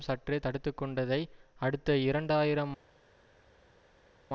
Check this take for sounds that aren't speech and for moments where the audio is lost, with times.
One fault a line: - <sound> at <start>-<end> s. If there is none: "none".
none